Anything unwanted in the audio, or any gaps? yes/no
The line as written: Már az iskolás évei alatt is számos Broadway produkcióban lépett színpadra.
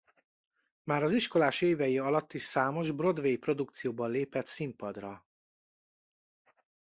no